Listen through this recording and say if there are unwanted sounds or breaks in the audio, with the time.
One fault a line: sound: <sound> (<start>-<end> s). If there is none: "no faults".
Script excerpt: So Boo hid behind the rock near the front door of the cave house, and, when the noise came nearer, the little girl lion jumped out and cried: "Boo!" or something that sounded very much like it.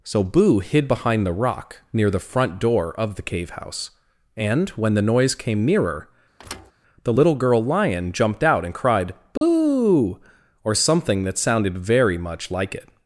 sound: thud (6.4-6.7 s)
sound: dropout (9.4-9.4 s)